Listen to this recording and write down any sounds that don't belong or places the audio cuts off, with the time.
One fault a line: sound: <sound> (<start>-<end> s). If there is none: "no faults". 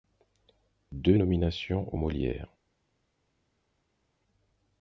no faults